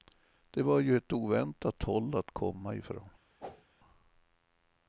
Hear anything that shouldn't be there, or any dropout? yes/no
yes